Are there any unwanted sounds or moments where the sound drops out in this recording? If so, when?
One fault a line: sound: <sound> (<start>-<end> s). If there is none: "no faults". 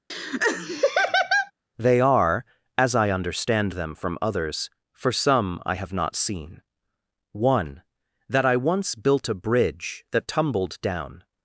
sound: laugh (0.1-1.5 s)